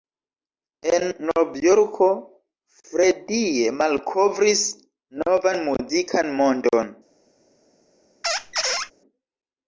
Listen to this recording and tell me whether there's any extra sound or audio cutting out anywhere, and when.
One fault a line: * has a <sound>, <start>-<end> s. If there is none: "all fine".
* has a squeak, 8.2-8.9 s